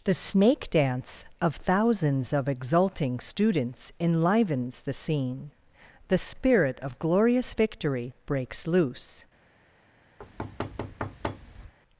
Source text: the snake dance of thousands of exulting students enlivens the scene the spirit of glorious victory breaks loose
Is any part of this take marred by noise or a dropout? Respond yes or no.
yes